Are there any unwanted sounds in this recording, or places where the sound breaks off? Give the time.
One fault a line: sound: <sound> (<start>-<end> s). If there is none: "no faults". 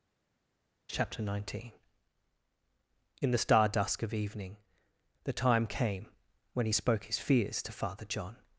no faults